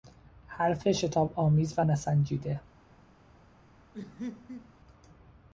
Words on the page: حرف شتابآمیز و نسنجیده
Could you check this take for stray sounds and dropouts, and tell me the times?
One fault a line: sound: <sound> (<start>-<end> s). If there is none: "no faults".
sound: laugh (3.9-4.7 s)